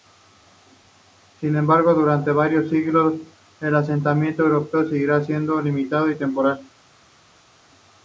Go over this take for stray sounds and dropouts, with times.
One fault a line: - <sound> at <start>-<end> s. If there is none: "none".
none